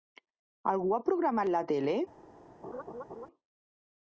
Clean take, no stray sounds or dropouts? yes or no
no